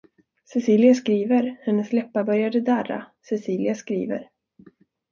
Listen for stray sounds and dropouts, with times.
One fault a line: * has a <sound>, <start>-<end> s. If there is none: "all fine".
all fine